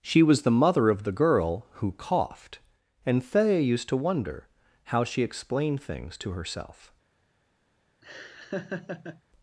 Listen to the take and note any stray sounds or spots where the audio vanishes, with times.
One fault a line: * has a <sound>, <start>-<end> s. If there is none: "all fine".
* has a laugh, 8.0-9.2 s